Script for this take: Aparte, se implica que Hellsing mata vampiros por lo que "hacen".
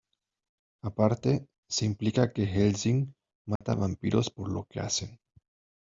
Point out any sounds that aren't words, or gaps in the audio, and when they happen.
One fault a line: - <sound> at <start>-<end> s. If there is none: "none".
- dropout at 3.6-3.6 s